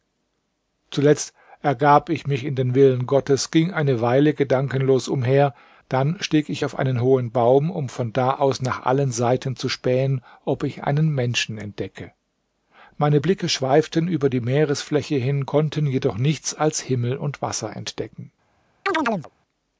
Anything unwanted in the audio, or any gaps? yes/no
yes